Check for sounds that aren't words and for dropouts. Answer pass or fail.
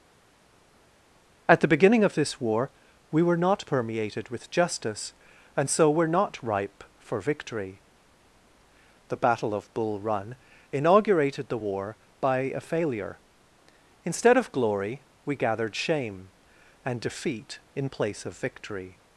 pass